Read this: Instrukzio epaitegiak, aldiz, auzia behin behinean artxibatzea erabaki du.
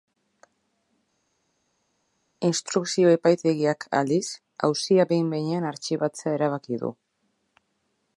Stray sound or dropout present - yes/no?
no